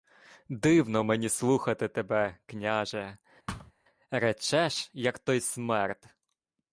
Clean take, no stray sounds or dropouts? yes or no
no